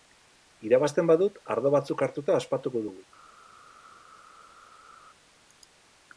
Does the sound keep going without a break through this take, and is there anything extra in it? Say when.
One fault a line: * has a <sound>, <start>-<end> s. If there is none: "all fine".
all fine